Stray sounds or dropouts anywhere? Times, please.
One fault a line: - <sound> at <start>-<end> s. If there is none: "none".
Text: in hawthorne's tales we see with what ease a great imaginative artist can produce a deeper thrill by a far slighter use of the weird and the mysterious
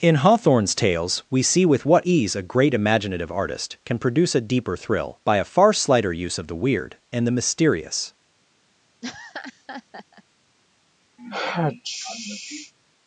- laugh at 9.0-10.2 s
- sneeze at 11.2-12.7 s